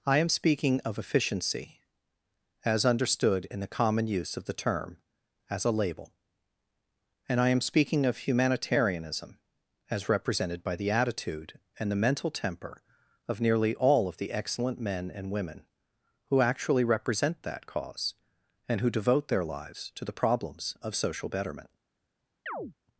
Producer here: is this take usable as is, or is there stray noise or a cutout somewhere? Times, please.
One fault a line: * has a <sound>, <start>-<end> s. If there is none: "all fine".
* has a chirp, 22.5-22.7 s